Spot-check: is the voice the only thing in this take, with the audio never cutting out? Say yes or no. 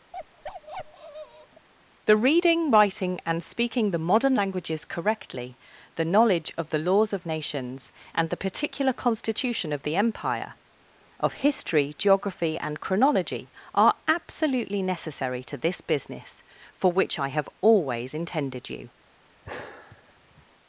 no